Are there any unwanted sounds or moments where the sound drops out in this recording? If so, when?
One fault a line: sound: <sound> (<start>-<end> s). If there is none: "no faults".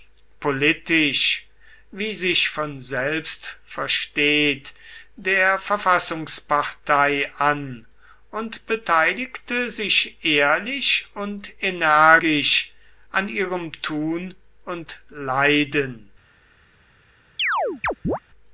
sound: chirp (17.4-18.2 s)